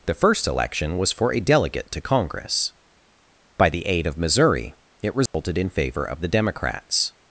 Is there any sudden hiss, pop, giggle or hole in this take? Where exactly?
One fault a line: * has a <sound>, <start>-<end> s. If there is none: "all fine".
* has a dropout, 5.3-5.3 s